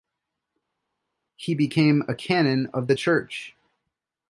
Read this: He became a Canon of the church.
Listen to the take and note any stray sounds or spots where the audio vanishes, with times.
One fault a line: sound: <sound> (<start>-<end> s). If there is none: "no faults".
no faults